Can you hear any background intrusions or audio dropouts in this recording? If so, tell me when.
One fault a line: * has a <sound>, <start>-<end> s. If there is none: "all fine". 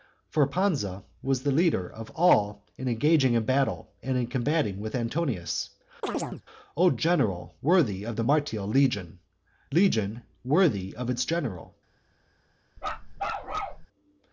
* has a chirp, 6.0-6.4 s
* has a bark, 12.8-13.9 s